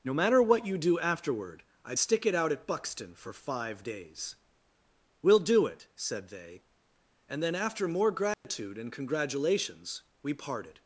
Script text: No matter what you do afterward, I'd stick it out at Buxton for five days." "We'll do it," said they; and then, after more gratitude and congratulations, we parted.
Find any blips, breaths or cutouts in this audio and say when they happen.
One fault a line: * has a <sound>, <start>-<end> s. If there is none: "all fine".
* has a dropout, 8.3-8.4 s